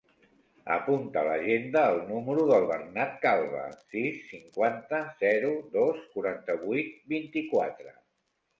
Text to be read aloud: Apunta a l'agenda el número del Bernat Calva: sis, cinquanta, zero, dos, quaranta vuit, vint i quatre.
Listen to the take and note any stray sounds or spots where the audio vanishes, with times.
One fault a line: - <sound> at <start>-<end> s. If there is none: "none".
none